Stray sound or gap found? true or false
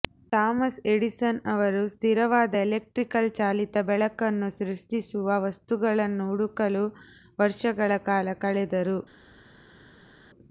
false